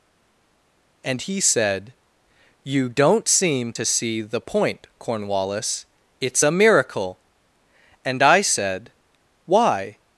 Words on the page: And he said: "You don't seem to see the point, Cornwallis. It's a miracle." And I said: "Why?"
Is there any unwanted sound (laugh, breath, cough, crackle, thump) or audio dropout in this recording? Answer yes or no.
no